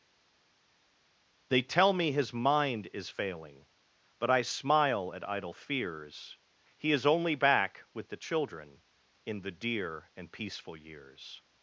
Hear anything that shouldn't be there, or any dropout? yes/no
no